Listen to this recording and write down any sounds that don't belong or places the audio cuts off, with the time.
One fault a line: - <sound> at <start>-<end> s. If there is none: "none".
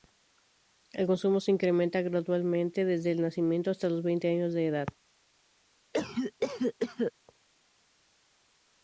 - cough at 5.9-7.1 s